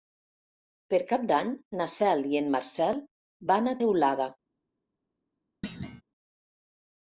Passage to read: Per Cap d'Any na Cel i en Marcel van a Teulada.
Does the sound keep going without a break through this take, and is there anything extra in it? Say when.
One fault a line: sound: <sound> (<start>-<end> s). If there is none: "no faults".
sound: thud (5.6-6.0 s)